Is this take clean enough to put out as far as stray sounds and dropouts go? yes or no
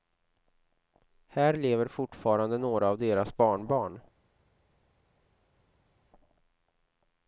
yes